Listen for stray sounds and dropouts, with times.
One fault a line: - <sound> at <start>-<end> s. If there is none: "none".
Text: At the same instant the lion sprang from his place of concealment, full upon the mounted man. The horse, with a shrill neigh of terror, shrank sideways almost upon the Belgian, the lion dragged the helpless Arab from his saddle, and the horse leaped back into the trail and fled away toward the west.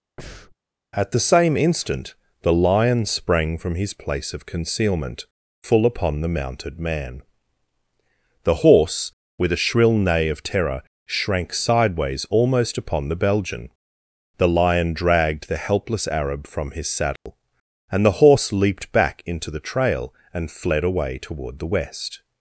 - breath at 0.2-0.6 s
- dropout at 17.2-17.3 s